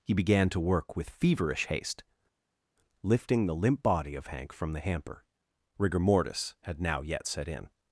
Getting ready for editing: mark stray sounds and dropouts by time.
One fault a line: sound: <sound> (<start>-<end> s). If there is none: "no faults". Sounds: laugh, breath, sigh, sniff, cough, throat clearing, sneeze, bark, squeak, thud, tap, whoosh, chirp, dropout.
no faults